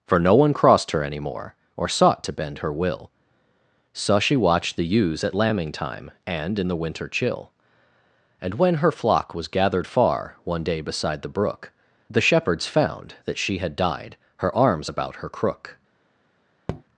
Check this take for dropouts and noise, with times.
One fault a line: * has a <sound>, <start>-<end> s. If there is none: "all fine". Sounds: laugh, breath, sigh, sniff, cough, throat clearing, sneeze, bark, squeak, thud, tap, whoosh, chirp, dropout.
* has a tap, 16.7-16.8 s